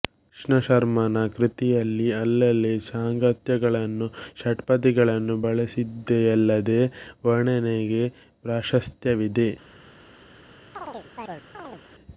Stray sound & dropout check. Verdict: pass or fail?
fail